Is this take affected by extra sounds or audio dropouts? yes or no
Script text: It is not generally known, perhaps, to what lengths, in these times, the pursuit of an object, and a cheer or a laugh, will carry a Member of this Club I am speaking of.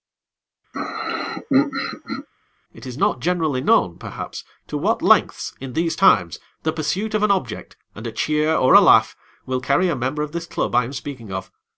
yes